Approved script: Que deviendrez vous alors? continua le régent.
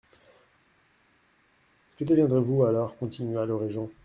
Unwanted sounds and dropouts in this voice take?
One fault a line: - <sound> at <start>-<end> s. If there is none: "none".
none